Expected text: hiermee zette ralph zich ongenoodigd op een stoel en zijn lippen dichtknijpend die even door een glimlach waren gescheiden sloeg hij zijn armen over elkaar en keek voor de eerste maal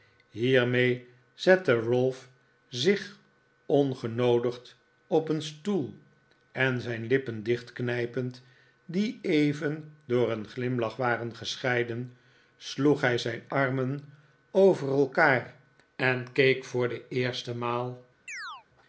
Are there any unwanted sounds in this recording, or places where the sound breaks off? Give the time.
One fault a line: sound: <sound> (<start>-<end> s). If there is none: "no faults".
sound: chirp (18.3-18.7 s)